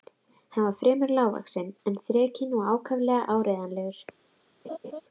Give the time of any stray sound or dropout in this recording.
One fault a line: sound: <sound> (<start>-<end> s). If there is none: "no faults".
sound: laugh (4.6-5.0 s)